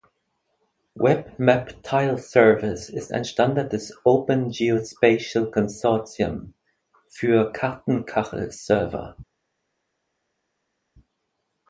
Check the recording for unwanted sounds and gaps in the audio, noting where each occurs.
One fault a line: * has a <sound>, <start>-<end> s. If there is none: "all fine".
all fine